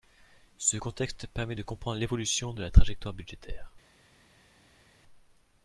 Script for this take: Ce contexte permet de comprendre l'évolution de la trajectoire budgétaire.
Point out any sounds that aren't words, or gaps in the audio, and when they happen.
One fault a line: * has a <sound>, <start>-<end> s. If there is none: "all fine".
all fine